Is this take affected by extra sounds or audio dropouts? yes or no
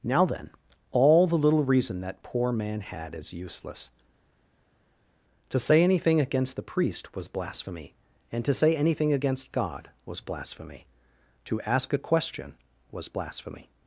no